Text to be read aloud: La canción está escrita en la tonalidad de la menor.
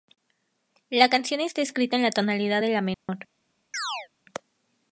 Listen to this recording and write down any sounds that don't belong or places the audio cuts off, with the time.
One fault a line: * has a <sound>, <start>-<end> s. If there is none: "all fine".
* has a dropout, 2.9-3.1 s
* has a chirp, 3.7-4.1 s